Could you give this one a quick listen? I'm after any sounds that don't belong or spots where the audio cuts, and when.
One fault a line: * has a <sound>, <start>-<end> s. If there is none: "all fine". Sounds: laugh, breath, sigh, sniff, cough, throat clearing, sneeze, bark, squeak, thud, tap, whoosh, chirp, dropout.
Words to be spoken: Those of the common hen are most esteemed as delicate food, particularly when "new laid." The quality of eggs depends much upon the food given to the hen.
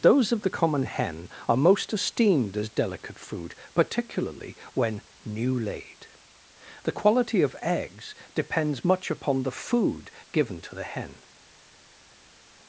all fine